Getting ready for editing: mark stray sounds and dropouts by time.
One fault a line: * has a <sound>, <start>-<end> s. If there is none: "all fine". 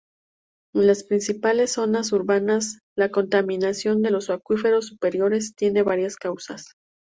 all fine